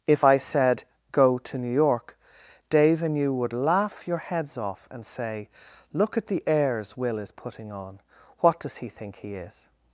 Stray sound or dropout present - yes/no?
no